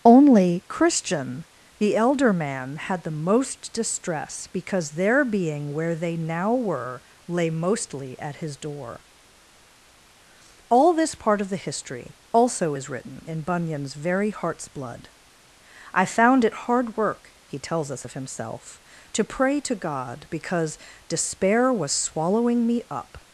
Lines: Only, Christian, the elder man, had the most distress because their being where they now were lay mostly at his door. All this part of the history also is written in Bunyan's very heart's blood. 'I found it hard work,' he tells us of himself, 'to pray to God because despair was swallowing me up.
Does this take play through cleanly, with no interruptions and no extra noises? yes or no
yes